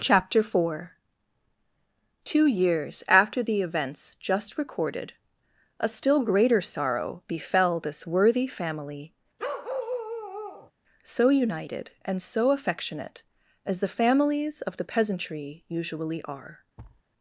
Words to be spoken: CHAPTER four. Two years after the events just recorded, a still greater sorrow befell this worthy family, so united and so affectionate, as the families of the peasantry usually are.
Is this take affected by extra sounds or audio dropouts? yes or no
yes